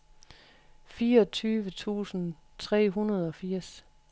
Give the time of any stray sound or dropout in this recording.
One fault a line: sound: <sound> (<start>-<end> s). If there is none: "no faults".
no faults